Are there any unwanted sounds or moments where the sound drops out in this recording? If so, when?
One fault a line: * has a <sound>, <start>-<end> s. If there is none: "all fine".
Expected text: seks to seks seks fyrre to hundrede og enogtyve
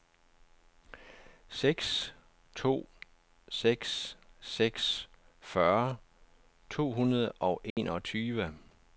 * has a dropout, 7.7-7.8 s